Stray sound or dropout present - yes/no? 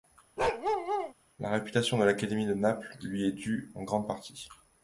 yes